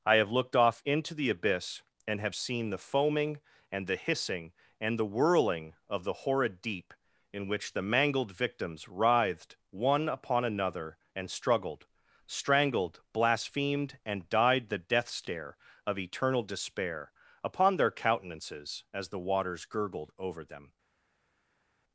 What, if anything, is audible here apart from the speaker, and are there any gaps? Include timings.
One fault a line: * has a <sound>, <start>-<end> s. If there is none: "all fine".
all fine